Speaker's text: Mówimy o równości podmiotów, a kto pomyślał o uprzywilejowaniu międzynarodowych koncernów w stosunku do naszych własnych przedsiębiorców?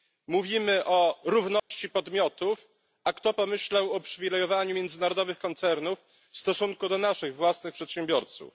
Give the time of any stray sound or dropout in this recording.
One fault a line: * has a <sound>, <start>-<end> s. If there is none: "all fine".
* has a dropout, 1.6-1.7 s